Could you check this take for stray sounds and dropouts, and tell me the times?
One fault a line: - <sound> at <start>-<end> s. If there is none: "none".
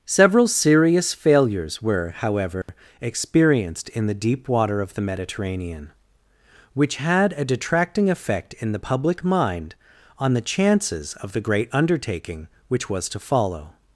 - dropout at 2.6-2.7 s